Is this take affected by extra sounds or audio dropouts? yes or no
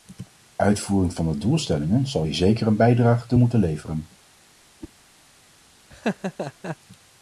yes